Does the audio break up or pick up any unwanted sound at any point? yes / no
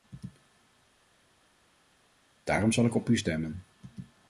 no